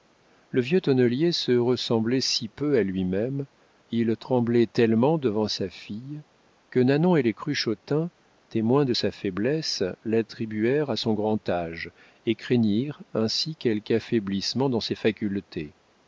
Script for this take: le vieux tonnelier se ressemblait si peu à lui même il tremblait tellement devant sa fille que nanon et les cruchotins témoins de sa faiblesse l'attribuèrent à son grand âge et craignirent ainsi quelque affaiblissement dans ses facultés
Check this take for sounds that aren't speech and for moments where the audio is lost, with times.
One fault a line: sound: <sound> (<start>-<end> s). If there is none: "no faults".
no faults